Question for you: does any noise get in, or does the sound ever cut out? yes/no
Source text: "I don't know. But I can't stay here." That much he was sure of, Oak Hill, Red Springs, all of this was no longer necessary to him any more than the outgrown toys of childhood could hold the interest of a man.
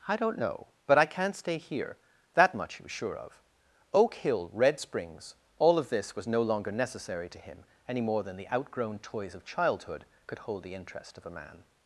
no